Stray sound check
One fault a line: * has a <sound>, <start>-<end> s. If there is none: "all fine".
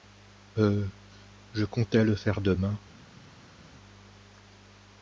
all fine